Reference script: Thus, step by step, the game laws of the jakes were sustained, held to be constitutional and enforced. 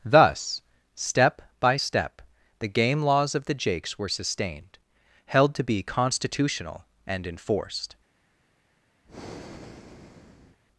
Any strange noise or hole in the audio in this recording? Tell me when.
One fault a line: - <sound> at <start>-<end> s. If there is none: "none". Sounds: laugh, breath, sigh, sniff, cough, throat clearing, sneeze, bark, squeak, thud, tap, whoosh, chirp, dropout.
- breath at 9.0-10.6 s